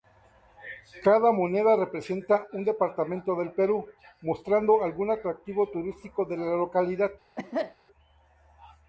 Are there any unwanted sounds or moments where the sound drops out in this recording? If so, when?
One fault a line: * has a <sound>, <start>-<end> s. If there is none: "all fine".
* has a cough, 7.4-7.8 s